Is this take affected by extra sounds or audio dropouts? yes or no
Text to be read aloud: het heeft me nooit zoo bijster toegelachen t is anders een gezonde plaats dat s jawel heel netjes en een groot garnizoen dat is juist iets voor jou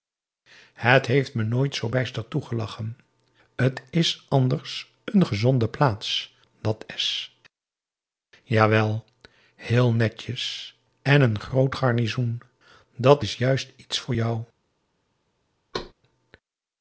yes